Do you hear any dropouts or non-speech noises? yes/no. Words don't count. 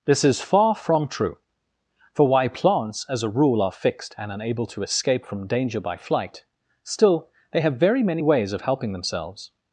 no